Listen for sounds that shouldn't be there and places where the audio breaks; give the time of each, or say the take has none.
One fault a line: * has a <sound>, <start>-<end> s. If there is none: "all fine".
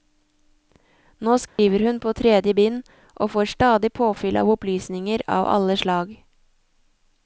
* has a dropout, 1.5-1.6 s